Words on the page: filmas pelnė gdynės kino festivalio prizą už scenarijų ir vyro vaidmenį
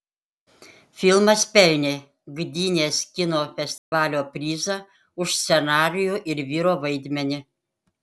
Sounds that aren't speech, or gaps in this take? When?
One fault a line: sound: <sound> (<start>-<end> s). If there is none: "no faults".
sound: dropout (3.8-3.9 s)